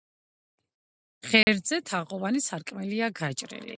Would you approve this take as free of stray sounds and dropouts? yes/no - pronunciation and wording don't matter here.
no